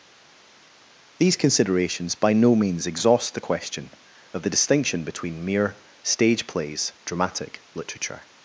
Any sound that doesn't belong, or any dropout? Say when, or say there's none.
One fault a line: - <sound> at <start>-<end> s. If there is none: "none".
none